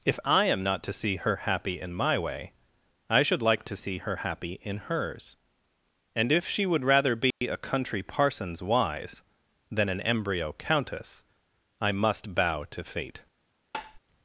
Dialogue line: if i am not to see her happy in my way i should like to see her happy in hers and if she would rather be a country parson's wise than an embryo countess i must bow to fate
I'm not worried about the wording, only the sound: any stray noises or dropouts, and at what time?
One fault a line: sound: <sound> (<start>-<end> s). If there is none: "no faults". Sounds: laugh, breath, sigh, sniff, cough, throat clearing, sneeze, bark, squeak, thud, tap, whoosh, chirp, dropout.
sound: dropout (7.3-7.4 s)
sound: tap (13.7-14.0 s)